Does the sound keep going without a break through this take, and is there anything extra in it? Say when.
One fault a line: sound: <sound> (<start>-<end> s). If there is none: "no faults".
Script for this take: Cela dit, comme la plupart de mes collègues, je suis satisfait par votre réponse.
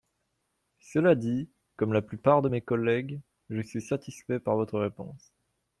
no faults